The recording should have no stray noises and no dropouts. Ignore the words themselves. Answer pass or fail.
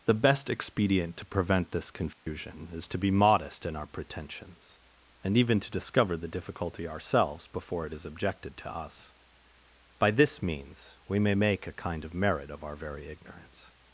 fail